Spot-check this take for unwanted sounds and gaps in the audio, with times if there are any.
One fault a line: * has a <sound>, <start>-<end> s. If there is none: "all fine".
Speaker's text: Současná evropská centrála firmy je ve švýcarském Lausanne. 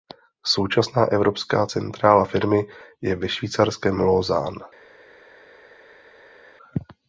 all fine